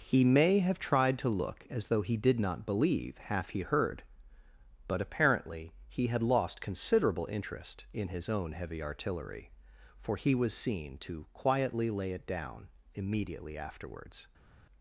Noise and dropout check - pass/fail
pass